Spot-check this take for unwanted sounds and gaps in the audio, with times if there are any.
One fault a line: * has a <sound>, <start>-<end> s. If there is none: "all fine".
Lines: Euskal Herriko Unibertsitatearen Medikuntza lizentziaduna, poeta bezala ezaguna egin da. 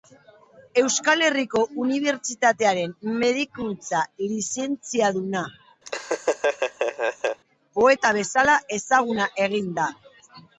* has a laugh, 5.9-7.4 s